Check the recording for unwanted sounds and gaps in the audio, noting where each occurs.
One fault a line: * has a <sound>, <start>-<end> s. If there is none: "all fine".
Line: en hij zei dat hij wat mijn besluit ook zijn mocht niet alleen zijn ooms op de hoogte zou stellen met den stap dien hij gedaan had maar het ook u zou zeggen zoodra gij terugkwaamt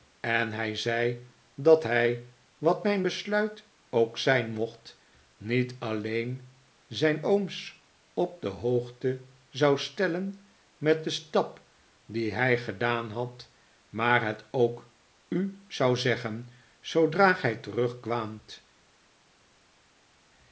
all fine